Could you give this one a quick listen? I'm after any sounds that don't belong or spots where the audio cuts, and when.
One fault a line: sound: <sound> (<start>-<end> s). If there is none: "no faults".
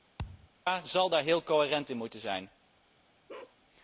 sound: thud (0.2-0.5 s)
sound: bark (3.3-3.6 s)